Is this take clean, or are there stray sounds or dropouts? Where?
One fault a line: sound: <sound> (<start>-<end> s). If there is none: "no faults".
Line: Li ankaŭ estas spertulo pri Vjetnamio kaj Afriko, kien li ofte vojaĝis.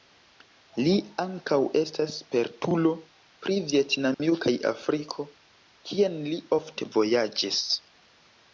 sound: dropout (4.1-4.2 s)